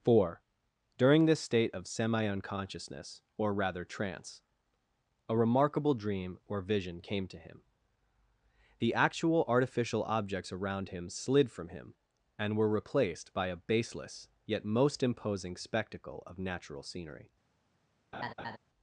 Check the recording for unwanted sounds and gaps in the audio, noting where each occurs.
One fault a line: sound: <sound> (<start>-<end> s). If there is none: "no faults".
sound: laugh (18.1-18.6 s)